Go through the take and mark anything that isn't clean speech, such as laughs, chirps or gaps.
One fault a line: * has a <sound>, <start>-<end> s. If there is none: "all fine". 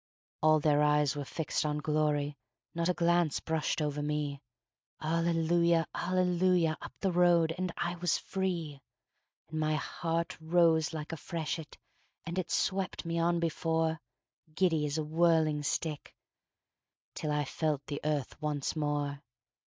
all fine